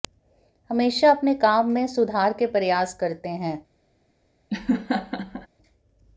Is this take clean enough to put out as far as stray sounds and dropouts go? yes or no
no